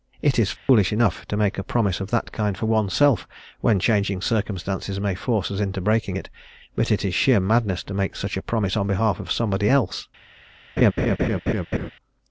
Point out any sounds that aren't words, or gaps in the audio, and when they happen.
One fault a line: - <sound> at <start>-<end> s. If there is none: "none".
- dropout at 0.6-0.7 s
- laugh at 10.8-11.9 s